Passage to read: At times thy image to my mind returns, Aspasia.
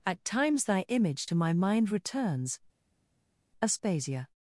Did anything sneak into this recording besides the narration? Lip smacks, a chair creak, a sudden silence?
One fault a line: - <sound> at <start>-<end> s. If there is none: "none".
none